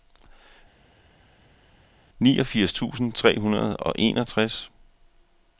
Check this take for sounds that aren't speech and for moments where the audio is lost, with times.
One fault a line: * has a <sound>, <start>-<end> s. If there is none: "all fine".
all fine